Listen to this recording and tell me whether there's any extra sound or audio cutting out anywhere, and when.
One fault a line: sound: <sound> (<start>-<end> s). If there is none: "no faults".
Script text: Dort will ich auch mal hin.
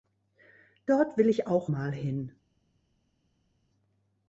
no faults